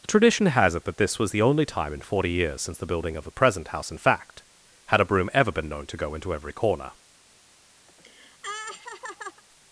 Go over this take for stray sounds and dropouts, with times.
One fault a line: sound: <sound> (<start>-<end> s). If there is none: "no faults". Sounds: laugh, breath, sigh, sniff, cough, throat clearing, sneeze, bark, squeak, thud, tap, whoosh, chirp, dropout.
sound: laugh (7.9-9.4 s)